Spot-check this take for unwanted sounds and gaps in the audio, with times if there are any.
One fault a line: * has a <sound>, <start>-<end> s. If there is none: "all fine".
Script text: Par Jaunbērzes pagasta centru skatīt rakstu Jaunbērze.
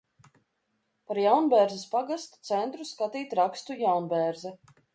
all fine